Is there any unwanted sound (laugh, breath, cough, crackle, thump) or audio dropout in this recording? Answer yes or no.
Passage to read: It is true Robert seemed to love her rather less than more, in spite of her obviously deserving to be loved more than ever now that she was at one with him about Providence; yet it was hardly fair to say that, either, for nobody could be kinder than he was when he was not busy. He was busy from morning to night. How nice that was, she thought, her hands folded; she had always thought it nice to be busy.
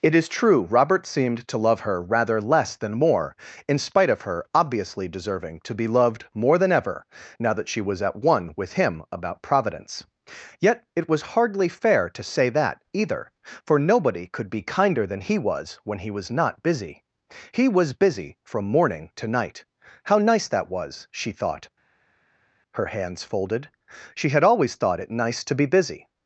no